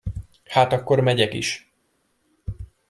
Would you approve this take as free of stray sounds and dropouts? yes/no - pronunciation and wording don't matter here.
yes